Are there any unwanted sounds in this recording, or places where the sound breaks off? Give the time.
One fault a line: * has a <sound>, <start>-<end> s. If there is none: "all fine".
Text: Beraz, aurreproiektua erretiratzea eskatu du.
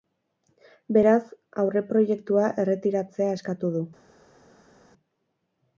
all fine